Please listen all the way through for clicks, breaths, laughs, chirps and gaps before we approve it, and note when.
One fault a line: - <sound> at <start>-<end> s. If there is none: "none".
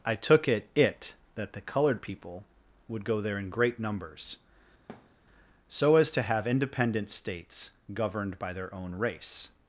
- thud at 4.9-5.2 s